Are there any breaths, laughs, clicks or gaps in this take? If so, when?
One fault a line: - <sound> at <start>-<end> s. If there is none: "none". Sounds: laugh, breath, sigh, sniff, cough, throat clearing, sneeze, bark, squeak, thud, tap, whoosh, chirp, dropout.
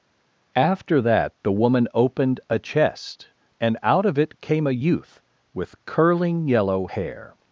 none